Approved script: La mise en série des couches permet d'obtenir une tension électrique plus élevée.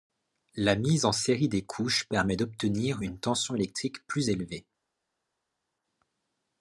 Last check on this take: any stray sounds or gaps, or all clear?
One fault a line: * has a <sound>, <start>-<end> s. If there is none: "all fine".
all fine